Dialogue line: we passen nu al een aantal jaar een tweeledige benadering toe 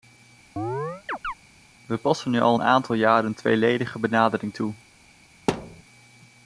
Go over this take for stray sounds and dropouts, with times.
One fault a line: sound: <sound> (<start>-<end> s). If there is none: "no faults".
sound: chirp (0.6-1.3 s)
sound: thud (5.5-5.8 s)